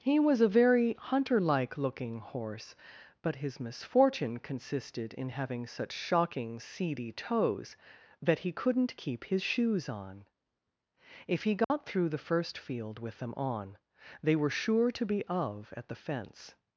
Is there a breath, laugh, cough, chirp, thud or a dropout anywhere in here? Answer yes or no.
yes